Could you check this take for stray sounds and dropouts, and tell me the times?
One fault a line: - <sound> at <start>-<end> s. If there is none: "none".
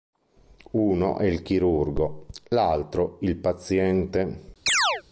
- chirp at 4.7-5.0 s